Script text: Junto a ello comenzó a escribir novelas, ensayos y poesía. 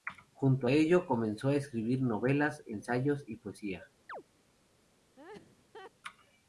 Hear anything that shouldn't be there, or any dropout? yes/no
yes